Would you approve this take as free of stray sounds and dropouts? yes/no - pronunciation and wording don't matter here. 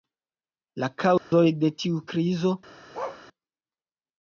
no